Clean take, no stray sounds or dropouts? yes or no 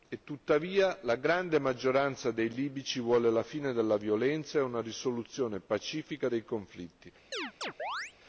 no